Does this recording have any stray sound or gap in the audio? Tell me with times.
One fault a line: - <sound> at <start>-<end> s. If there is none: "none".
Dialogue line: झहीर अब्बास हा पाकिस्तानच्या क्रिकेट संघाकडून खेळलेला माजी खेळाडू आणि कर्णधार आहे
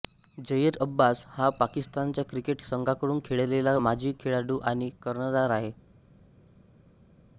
none